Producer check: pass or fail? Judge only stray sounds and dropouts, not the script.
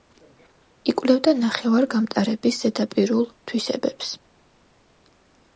pass